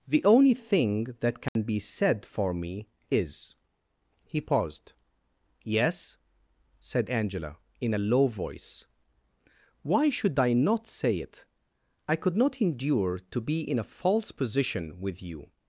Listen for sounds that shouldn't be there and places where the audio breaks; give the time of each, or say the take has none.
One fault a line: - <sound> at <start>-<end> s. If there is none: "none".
- dropout at 1.5-1.6 s